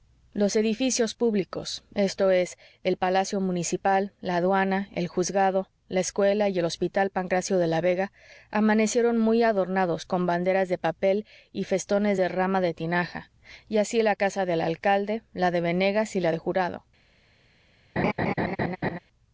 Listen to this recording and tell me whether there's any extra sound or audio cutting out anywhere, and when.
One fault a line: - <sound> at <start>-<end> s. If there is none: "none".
- laugh at 18.0-19.0 s